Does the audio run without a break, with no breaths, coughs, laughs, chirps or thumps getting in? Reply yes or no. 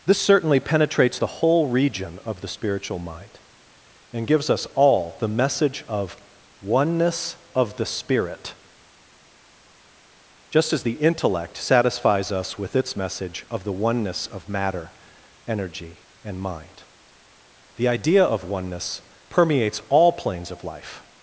yes